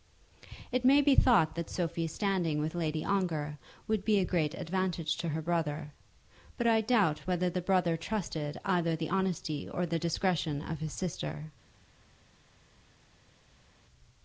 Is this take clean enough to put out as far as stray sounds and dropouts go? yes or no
yes